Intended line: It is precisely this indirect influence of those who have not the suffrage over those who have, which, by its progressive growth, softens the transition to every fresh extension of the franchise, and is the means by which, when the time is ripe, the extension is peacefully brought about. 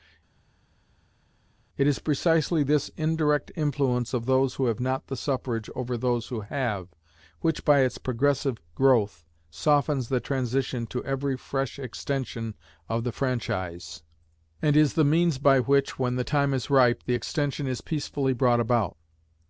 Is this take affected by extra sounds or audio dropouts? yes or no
no